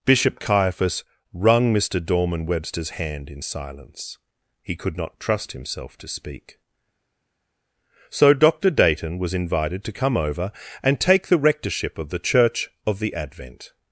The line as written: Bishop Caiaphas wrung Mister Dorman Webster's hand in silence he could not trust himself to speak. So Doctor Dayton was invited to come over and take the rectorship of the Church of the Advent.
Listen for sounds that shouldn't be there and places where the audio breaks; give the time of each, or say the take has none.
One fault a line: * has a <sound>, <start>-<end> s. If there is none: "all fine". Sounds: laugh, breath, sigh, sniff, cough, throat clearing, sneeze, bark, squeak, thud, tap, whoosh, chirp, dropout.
all fine